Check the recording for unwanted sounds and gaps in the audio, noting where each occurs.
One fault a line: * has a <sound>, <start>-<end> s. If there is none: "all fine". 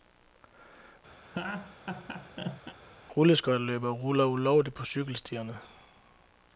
* has a laugh, 1.2-2.8 s